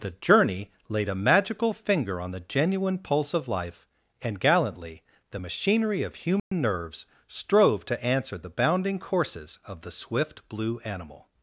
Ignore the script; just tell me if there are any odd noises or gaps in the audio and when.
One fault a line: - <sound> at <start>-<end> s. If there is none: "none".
- dropout at 6.4-6.5 s